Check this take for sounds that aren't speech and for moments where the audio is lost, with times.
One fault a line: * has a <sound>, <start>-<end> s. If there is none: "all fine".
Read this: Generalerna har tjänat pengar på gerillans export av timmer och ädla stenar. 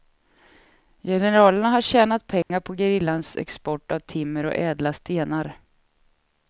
* has a dropout, 2.4-2.5 s